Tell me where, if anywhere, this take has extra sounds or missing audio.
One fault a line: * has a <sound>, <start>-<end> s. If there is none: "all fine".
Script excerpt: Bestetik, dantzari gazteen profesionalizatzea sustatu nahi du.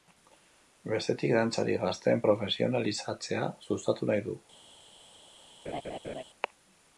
* has a laugh, 5.6-6.2 s